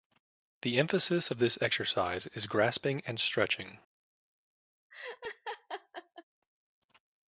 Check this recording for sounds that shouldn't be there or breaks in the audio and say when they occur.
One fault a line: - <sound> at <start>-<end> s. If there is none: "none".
- laugh at 4.9-6.2 s